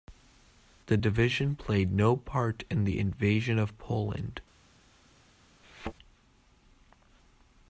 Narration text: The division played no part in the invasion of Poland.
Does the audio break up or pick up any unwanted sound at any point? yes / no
yes